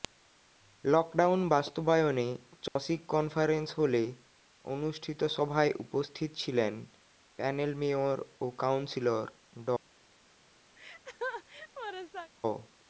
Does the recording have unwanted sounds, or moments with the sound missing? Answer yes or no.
yes